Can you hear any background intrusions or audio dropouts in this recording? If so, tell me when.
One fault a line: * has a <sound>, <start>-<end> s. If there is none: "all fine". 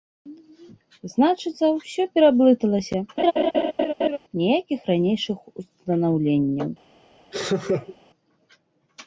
* has a laugh, 3.2-4.2 s
* has a laugh, 7.3-8.0 s